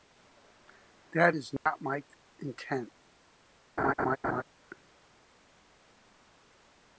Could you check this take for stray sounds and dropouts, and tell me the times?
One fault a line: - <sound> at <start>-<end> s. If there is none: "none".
- dropout at 1.6-1.7 s
- laugh at 3.8-4.4 s